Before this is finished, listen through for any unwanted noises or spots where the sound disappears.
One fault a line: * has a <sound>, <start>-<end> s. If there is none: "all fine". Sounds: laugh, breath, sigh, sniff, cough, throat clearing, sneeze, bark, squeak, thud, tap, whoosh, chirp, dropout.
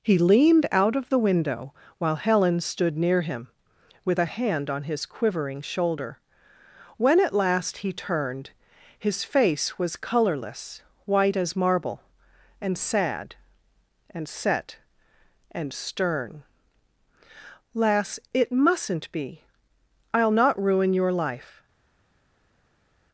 all fine